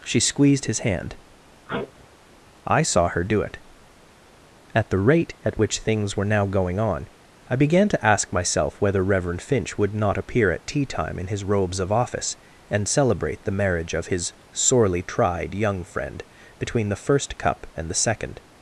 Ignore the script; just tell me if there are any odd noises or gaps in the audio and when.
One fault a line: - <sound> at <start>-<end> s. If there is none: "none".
- sneeze at 1.7-2.1 s